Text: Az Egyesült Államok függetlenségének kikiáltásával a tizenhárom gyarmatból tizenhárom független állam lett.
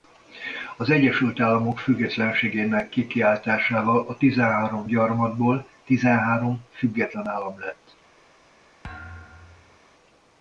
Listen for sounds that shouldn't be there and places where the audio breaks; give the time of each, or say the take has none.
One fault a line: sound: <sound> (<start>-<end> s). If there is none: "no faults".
sound: thud (8.8-9.8 s)